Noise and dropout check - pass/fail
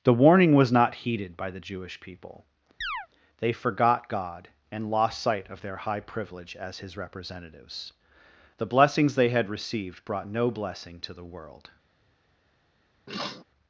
fail